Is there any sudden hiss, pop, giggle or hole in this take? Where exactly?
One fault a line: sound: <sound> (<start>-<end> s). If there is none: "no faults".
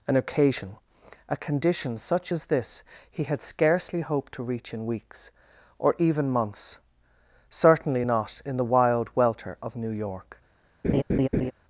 sound: laugh (10.8-11.5 s)